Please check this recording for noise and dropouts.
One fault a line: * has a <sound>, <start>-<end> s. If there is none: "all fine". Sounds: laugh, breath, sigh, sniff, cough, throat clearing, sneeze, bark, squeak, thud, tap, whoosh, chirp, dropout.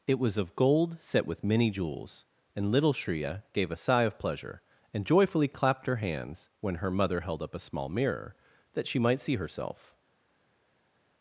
all fine